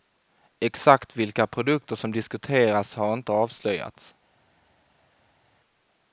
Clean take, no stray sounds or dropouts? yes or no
yes